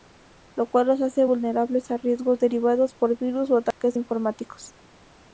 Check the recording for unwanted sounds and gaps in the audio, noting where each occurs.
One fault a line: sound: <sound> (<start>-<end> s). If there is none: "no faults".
sound: dropout (3.7-3.8 s)